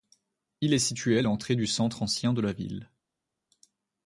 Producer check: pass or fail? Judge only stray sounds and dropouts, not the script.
pass